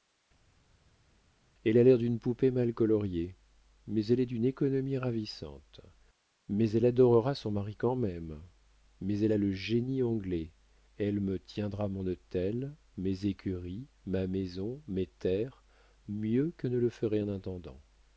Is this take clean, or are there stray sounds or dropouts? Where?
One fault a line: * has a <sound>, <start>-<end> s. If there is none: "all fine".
all fine